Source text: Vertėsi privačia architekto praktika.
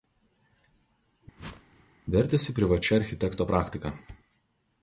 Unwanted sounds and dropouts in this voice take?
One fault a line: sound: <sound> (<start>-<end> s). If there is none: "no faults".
sound: whoosh (1.4-1.9 s)